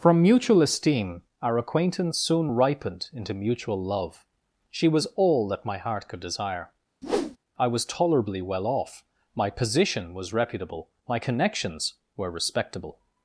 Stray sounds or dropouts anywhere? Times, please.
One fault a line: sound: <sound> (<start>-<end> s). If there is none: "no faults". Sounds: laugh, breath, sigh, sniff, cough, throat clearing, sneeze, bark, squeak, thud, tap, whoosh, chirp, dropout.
sound: whoosh (7.0-7.4 s)